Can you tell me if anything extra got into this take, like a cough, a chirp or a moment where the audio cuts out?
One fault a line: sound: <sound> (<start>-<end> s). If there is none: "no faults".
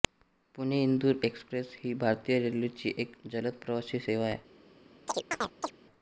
sound: chirp (5.1-5.7 s)